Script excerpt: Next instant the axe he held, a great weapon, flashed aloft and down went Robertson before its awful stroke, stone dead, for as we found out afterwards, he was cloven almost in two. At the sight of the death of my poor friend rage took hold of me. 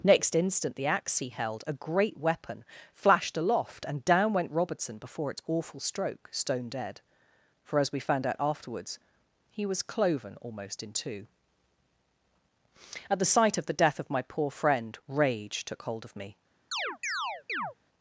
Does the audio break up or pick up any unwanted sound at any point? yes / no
yes